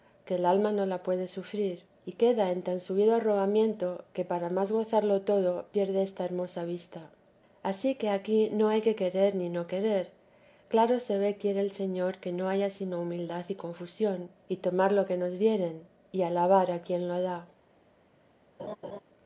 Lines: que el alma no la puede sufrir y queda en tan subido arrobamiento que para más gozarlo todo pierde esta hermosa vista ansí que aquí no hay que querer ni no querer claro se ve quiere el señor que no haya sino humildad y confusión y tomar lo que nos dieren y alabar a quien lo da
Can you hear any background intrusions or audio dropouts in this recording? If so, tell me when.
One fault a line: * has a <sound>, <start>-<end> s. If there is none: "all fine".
* has a laugh, 18.6-19.0 s